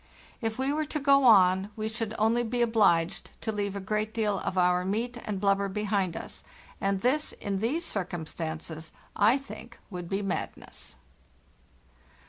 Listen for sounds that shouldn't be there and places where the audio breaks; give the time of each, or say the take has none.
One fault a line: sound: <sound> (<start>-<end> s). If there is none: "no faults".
no faults